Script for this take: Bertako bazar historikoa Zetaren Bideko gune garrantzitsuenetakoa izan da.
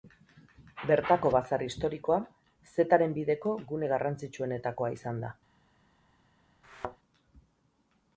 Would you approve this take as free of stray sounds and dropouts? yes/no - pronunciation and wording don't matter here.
no